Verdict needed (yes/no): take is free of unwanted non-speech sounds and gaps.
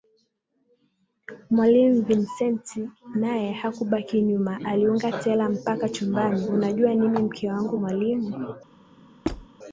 no